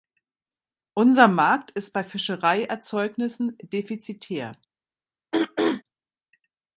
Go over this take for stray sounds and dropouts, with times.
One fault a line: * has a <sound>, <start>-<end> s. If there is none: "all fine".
* has a throat clearing, 5.3-5.8 s